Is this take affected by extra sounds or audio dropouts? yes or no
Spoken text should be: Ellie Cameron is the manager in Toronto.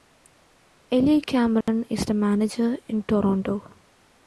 yes